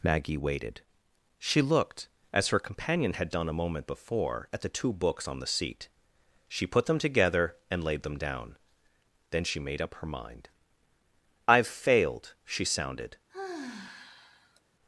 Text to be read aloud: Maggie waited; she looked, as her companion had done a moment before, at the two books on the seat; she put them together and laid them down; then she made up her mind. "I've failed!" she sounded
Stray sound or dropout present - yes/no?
yes